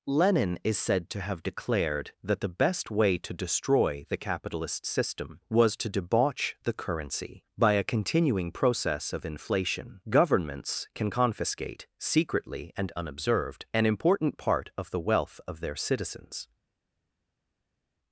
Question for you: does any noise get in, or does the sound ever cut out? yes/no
no